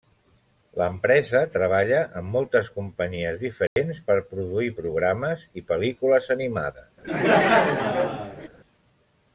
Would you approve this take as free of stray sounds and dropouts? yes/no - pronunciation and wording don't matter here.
no